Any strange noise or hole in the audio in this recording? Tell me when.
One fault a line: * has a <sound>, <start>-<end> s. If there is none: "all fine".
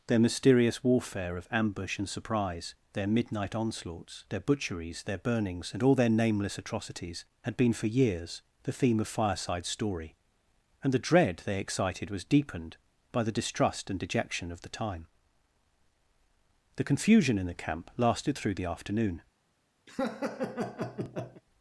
* has a laugh, 19.9-21.4 s